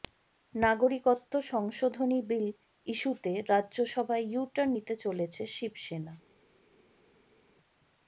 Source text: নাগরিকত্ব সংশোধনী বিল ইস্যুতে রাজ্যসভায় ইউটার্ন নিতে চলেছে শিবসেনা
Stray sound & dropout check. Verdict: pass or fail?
pass